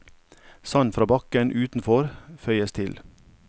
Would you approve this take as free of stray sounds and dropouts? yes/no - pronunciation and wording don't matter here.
yes